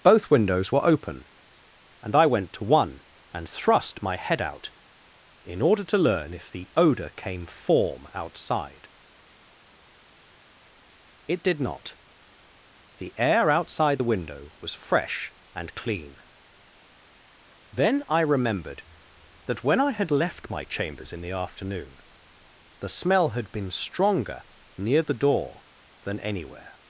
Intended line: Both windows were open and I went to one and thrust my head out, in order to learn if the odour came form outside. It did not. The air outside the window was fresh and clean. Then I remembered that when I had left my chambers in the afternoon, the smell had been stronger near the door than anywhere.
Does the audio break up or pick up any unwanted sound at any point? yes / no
no